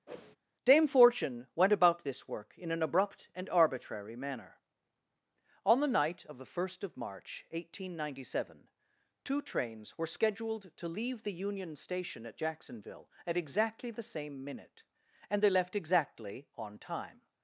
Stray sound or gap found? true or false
true